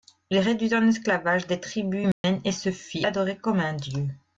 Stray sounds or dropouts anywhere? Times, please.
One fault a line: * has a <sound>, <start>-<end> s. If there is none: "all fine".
* has a dropout, 2.1-2.2 s